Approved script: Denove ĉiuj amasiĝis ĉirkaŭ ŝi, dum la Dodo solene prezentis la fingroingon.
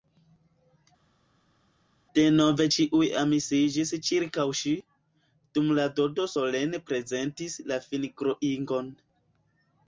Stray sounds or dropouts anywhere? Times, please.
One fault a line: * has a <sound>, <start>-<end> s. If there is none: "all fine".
all fine